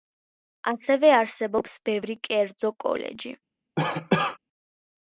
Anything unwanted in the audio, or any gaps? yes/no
yes